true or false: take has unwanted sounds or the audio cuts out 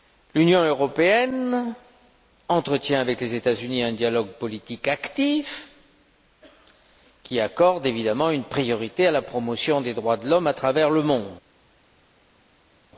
false